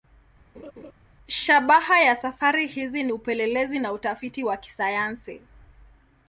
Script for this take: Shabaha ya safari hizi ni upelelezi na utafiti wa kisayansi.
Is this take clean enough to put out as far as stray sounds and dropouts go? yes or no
no